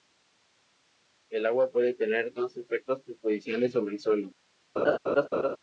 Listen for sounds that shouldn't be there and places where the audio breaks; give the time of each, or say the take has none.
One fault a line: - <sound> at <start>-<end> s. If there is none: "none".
- laugh at 4.8-5.6 s